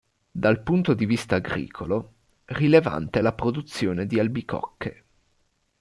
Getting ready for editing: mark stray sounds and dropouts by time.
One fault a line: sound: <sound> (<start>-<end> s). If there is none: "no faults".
no faults